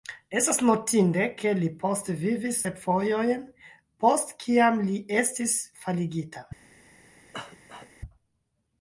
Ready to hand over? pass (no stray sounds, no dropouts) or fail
fail